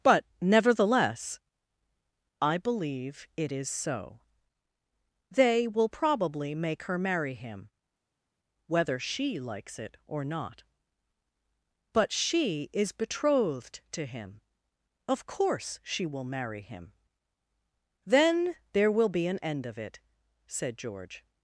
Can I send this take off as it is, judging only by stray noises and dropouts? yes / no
yes